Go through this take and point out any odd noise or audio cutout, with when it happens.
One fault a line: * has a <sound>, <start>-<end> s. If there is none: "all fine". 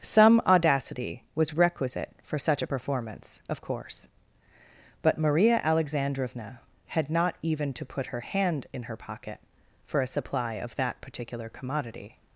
all fine